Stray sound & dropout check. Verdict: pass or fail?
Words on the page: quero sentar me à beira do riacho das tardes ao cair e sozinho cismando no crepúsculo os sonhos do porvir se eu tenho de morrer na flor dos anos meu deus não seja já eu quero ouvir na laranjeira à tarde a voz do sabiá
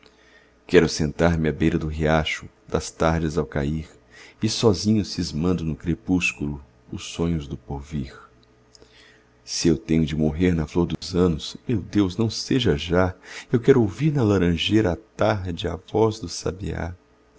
fail